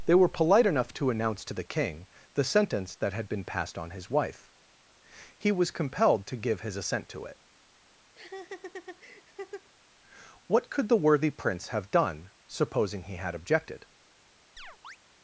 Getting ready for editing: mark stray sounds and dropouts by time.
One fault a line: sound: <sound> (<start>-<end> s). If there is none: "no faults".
sound: laugh (8.1-9.7 s)
sound: chirp (14.6-15.0 s)